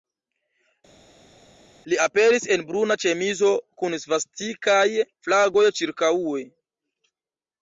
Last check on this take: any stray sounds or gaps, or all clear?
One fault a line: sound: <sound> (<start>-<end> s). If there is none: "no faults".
no faults